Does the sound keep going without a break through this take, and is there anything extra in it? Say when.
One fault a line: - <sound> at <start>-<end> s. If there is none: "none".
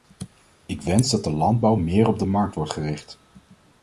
none